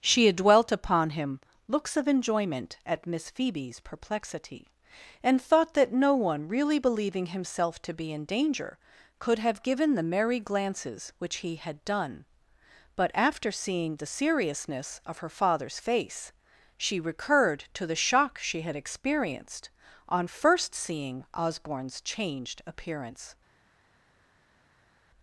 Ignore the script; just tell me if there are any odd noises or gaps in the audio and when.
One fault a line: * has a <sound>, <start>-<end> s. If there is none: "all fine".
all fine